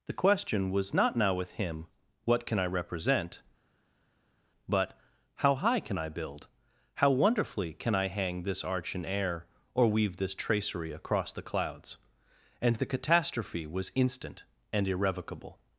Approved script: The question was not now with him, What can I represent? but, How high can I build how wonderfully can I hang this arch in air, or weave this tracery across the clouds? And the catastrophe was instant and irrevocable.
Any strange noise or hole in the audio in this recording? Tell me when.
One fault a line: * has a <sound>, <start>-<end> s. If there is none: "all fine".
all fine